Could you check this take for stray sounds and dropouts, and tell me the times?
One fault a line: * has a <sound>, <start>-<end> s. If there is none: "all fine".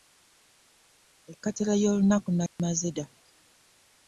* has a dropout, 2.5-2.6 s